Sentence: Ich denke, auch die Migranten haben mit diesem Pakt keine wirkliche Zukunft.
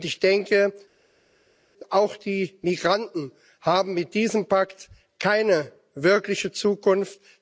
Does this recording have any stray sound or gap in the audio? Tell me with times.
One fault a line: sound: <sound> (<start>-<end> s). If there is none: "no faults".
no faults